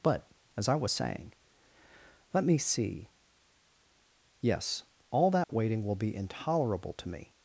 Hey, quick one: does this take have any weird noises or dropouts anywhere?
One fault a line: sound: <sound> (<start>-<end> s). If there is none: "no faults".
sound: dropout (5.4-5.5 s)